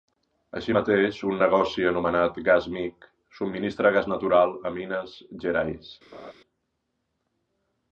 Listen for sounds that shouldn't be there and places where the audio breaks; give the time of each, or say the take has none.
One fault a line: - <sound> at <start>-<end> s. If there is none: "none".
- laugh at 6.1-6.3 s